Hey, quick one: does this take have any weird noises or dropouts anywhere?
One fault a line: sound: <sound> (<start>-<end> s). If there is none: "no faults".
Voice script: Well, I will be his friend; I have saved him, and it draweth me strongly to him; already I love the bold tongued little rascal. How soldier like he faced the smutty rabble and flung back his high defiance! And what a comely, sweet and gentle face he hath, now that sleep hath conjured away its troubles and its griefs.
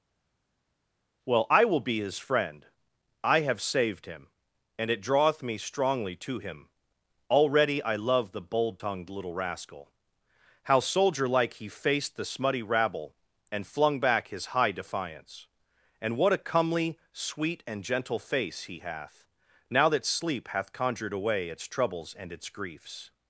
no faults